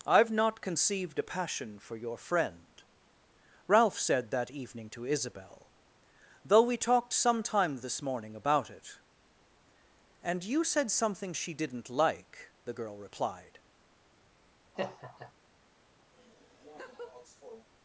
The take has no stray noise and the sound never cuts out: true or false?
false